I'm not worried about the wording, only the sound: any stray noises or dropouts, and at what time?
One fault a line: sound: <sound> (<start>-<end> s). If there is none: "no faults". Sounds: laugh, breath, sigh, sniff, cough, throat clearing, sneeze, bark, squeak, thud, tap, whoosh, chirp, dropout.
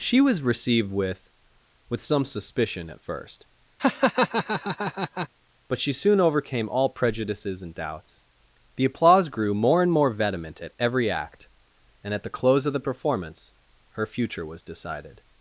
sound: laugh (3.8-5.3 s)